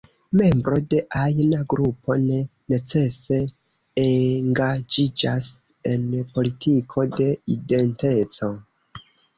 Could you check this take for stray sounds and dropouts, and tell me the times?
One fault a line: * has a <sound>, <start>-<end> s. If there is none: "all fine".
all fine